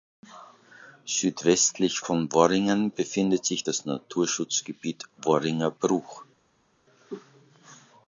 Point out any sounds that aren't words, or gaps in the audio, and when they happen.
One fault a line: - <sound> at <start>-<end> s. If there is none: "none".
none